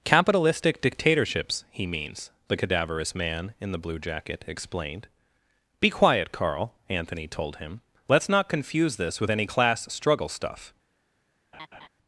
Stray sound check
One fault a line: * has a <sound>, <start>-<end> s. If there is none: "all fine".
* has a laugh, 11.5-11.9 s